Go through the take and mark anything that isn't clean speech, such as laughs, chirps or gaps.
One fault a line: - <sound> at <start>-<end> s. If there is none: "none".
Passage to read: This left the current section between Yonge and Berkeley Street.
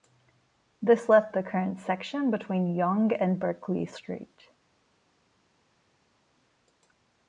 none